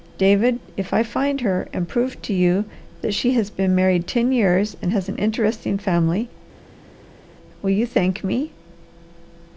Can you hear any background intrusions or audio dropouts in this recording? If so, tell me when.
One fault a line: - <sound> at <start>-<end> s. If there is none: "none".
none